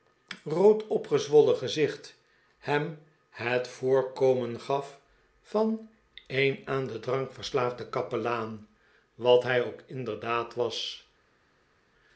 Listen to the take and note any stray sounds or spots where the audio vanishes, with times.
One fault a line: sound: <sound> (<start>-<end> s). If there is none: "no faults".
no faults